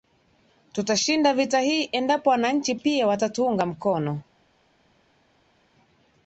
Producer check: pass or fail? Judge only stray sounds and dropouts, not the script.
pass